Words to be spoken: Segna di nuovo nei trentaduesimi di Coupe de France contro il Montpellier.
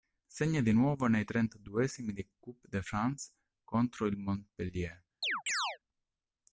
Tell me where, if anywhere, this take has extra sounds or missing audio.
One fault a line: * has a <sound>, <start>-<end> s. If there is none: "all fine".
* has a chirp, 5.2-5.8 s